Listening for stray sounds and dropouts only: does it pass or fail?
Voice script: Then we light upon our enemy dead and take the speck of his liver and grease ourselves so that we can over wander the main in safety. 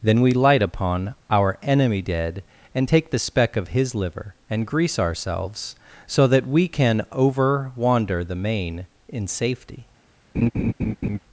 fail